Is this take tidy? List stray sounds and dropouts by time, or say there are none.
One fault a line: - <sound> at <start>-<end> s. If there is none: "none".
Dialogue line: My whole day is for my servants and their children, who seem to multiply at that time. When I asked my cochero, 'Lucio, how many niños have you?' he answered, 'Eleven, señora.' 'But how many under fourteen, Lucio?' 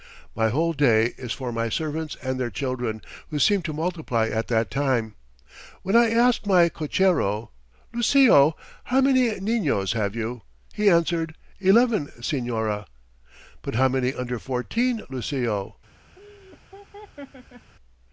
- laugh at 16.2-17.7 s